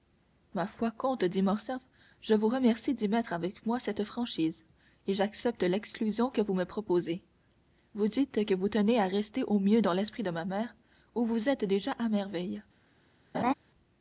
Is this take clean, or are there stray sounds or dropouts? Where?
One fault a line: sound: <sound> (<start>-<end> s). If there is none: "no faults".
sound: laugh (13.3-13.5 s)